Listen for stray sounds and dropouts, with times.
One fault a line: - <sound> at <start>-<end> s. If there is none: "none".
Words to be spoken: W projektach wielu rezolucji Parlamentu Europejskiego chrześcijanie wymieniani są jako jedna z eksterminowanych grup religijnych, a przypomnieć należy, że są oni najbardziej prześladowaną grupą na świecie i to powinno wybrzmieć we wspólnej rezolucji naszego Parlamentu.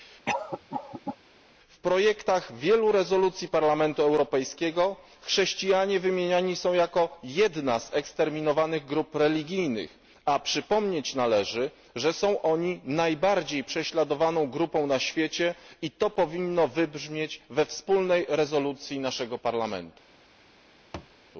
- cough at 0.3-1.2 s
- thud at 20.9-21.2 s